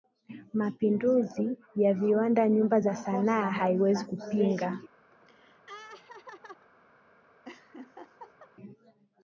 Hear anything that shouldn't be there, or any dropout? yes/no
yes